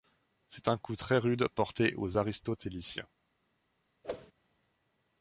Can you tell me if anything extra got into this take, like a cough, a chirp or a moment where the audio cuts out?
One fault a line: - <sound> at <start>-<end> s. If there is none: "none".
- whoosh at 4.0-4.3 s